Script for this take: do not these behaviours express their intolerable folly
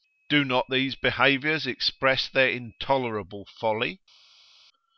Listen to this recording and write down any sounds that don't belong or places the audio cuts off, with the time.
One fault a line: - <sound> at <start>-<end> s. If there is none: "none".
none